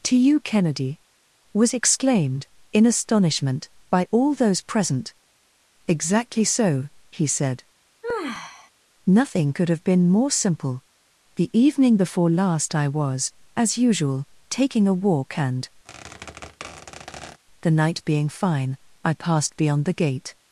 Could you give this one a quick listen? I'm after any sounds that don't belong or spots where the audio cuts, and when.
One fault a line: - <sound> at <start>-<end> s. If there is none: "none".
- sigh at 8.0-8.7 s
- squeak at 15.8-17.4 s